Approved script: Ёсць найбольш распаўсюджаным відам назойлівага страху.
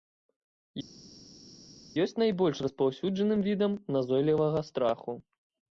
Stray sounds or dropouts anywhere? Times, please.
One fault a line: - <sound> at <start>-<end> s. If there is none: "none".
none